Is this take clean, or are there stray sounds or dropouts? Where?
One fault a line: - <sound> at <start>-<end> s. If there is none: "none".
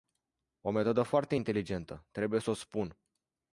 none